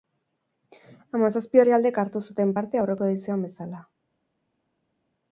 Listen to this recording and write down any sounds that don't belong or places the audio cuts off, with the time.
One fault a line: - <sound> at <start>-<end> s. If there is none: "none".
none